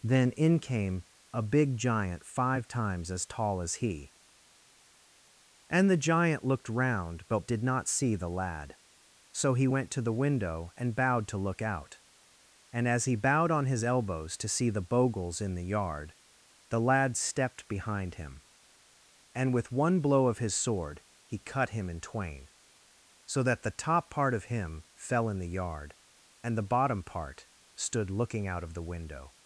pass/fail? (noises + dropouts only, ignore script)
pass